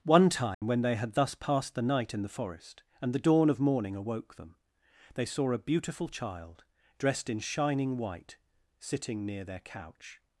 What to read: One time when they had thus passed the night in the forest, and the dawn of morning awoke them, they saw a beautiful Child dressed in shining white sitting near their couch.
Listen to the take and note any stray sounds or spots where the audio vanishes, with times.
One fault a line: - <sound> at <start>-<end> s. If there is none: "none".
- dropout at 0.5-0.6 s